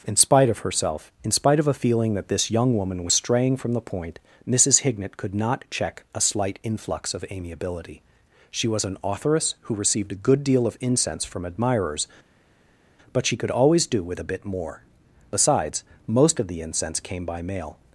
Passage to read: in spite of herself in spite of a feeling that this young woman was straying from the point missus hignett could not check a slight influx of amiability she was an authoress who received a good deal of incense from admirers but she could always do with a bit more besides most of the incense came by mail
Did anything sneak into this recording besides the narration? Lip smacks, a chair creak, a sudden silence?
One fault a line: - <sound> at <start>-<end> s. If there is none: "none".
none